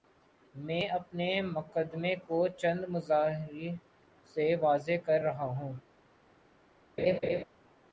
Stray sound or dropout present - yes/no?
yes